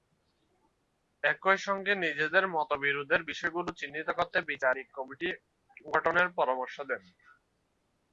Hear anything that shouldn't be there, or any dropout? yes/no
no